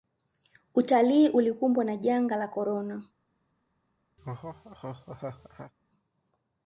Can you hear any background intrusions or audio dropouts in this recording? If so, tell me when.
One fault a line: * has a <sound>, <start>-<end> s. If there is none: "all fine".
* has a laugh, 4.2-5.7 s